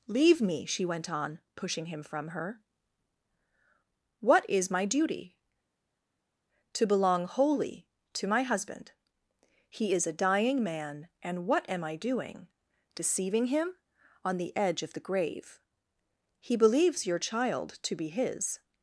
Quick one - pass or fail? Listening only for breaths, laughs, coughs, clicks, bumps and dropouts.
pass